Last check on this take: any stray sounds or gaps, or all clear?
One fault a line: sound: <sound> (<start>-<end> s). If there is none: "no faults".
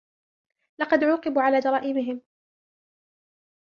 no faults